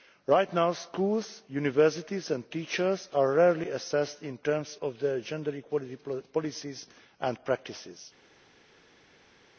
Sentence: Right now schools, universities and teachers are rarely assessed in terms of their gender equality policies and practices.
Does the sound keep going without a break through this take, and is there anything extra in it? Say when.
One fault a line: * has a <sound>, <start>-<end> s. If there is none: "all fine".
all fine